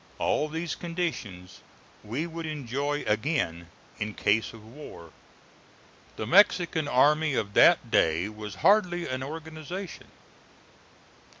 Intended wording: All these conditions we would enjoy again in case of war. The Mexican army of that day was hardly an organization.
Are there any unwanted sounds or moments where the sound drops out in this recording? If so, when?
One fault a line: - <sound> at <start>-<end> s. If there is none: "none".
none